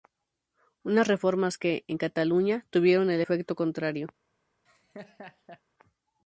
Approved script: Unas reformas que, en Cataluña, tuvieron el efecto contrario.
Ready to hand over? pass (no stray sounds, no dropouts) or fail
fail